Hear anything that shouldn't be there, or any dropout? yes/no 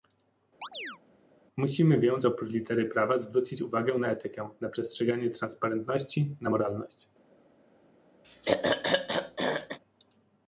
yes